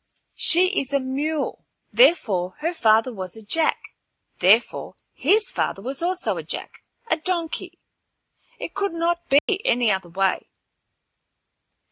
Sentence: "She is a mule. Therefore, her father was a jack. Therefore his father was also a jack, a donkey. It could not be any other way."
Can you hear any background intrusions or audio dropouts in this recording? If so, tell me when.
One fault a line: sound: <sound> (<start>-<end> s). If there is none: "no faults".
sound: dropout (9.4-9.5 s)